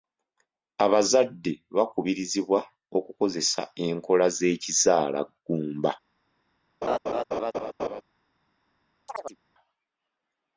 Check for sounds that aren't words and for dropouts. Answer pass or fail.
fail